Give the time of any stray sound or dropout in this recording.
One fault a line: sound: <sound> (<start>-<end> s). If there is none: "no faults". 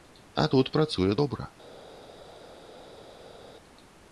no faults